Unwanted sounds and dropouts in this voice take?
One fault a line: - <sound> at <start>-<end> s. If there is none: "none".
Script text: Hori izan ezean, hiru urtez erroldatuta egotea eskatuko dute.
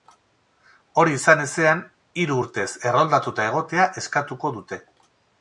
none